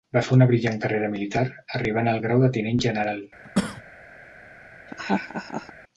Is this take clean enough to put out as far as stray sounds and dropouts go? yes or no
no